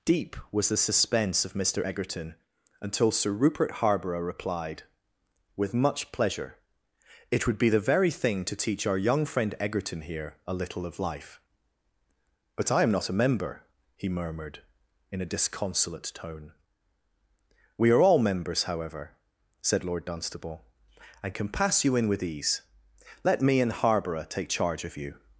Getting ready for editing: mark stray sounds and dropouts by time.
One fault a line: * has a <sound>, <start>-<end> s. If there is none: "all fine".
all fine